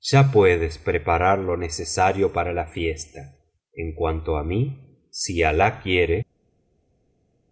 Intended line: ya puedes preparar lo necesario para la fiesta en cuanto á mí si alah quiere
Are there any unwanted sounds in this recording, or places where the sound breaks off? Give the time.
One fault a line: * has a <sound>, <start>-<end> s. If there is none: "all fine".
all fine